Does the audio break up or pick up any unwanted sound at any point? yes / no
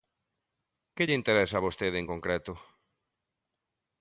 no